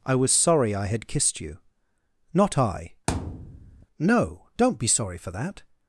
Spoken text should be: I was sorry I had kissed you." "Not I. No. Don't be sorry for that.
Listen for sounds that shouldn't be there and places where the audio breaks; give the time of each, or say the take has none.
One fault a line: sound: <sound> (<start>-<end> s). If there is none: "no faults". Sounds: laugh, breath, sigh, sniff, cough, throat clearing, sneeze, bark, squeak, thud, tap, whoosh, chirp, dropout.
sound: thud (3.1-3.9 s)